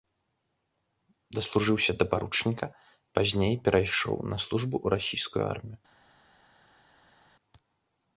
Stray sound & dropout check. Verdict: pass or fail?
pass